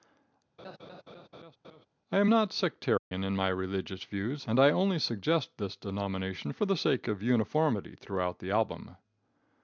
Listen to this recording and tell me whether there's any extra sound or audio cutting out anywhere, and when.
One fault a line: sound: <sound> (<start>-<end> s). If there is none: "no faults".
sound: laugh (0.6-1.9 s)
sound: dropout (3.0-3.1 s)